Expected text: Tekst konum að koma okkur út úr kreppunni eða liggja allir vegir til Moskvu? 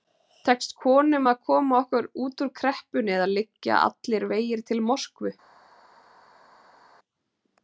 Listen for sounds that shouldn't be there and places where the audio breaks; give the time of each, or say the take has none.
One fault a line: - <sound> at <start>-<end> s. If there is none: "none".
none